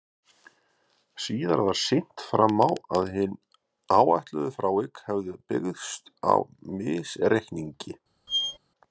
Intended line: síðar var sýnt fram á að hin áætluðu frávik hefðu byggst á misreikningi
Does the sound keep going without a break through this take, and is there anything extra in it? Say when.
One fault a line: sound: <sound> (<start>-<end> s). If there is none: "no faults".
sound: squeak (8.3-8.6 s)